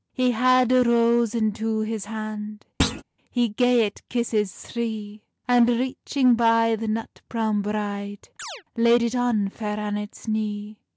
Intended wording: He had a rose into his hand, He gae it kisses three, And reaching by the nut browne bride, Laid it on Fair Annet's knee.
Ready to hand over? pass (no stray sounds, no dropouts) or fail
fail